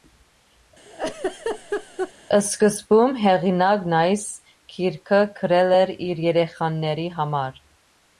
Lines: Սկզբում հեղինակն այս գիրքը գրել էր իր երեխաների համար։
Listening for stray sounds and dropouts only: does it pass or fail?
fail